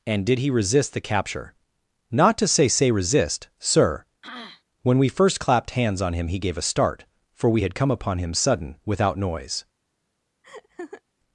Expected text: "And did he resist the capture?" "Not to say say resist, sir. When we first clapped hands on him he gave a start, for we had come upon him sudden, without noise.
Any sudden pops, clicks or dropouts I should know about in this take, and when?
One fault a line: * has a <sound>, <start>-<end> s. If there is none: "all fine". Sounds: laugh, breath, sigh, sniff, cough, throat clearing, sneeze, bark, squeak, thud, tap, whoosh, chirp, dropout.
* has a throat clearing, 4.2-4.6 s
* has a laugh, 10.4-11.0 s